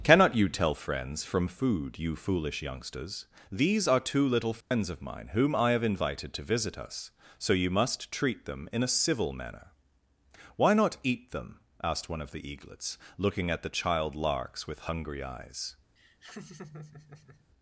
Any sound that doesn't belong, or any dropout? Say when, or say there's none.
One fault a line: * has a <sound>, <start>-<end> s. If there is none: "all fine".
* has a dropout, 4.6-4.7 s
* has a laugh, 16.0-17.5 s